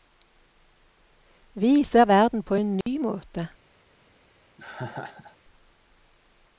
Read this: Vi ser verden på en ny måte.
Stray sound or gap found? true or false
true